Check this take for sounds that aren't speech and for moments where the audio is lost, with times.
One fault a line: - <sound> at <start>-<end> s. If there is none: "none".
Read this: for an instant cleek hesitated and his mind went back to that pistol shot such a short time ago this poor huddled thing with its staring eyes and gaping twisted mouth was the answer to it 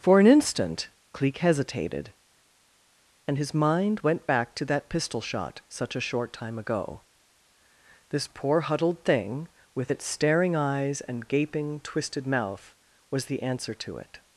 none